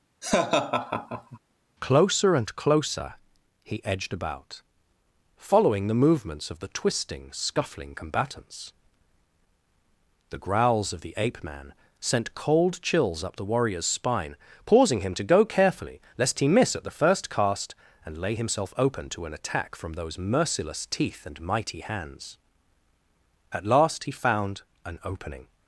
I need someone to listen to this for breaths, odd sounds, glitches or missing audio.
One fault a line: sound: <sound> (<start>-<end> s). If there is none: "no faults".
sound: laugh (0.2-1.4 s)